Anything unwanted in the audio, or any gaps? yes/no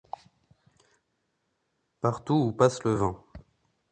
no